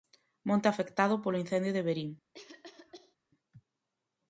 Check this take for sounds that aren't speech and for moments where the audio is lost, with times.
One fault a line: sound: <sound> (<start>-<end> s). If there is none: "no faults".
sound: cough (2.3-3.2 s)